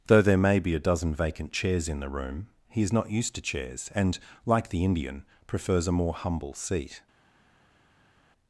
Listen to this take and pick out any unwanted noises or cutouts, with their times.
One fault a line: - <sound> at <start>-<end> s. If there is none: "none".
none